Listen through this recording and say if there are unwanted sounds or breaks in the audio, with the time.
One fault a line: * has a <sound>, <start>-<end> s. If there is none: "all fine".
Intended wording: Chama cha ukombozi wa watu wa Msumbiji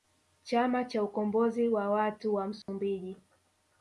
* has a dropout, 2.6-2.7 s